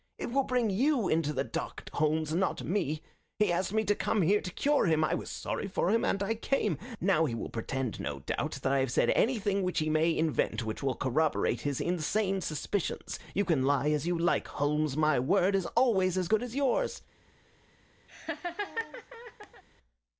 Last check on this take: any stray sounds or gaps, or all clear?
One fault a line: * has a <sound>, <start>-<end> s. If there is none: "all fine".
* has a laugh, 18.1-19.6 s